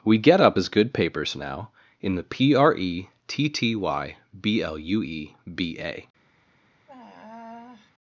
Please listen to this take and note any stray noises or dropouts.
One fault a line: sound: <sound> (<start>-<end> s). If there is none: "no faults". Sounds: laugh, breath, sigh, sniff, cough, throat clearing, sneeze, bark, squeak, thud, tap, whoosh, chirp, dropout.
sound: sigh (6.9-7.9 s)